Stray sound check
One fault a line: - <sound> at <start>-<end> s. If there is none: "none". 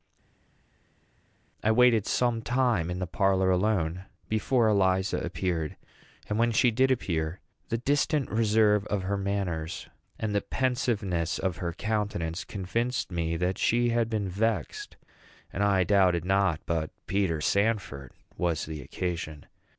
none